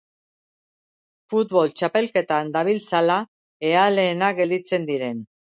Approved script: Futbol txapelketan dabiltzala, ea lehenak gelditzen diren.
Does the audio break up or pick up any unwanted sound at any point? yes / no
no